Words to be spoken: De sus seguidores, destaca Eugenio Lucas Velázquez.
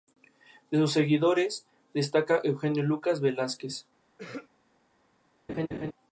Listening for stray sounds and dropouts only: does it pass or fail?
fail